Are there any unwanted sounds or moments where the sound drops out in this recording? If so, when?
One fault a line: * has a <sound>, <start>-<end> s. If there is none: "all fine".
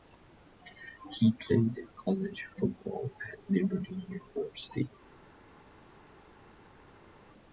all fine